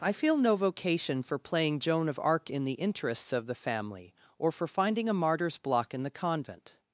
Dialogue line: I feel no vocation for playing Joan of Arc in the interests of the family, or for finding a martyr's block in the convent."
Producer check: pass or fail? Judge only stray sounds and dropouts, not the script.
pass